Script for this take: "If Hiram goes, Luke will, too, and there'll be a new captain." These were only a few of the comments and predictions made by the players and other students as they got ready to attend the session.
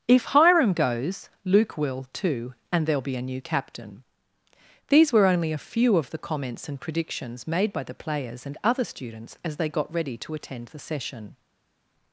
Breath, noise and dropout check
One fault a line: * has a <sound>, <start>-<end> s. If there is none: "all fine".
all fine